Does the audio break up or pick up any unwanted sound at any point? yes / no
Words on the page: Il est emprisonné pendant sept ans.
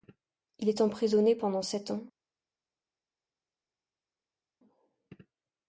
no